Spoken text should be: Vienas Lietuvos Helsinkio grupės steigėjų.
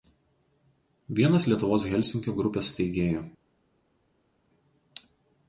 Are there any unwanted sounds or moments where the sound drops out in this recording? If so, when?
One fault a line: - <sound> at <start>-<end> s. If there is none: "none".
none